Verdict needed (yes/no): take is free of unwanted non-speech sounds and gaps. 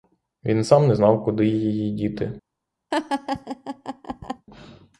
no